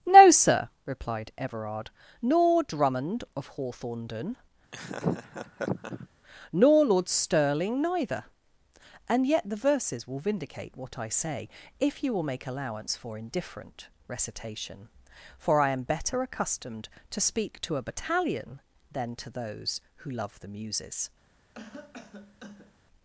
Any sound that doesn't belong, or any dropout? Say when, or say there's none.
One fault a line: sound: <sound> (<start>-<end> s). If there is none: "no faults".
sound: laugh (4.7-6.1 s)
sound: cough (21.5-22.8 s)